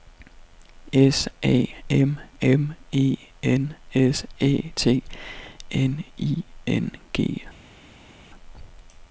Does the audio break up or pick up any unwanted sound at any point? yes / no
no